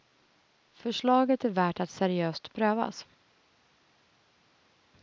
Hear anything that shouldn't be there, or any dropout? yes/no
no